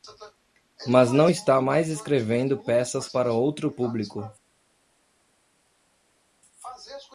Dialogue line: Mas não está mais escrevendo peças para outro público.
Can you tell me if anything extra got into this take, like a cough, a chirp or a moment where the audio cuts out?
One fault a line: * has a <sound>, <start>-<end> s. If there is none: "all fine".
all fine